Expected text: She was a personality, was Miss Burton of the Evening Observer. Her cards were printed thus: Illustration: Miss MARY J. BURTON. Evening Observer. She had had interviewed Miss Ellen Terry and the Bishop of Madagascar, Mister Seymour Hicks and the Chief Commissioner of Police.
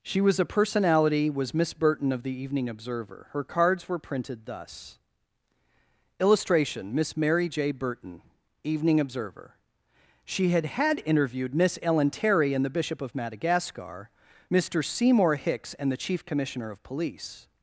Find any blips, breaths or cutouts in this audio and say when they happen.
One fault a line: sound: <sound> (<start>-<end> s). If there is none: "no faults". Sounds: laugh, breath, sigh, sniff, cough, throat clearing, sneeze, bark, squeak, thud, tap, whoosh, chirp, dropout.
no faults